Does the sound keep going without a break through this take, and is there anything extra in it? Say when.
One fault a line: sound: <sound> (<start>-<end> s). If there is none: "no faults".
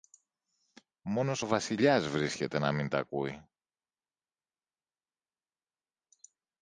no faults